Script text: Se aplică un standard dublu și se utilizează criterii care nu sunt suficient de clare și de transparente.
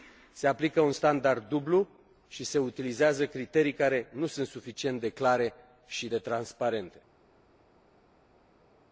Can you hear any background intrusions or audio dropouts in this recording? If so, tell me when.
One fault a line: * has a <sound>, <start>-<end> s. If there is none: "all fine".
all fine